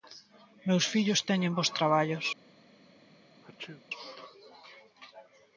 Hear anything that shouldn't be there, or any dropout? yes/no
yes